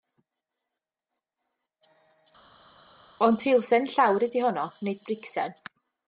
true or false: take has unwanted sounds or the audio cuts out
false